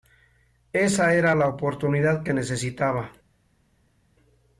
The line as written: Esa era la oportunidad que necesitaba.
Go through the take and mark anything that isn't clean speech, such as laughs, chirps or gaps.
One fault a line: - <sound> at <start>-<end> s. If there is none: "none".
none